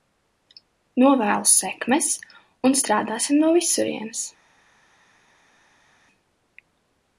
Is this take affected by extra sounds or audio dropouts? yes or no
no